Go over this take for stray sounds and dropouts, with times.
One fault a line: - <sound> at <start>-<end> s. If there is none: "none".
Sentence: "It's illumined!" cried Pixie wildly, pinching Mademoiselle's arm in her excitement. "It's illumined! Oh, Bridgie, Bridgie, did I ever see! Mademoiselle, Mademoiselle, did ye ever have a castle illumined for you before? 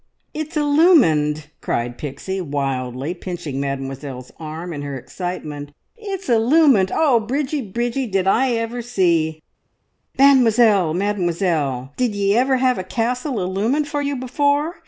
none